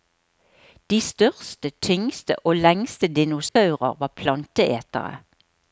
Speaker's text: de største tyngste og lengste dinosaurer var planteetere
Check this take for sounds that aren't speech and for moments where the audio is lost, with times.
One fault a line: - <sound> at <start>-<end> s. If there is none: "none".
- dropout at 3.5-3.6 s